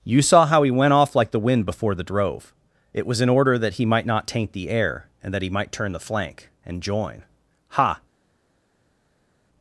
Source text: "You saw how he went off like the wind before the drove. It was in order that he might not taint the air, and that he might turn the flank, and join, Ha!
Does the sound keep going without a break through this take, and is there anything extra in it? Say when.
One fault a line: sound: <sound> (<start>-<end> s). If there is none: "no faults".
no faults